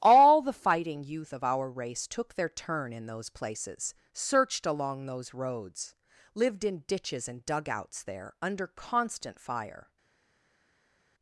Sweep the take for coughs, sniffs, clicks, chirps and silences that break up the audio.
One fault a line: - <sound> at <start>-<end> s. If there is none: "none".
none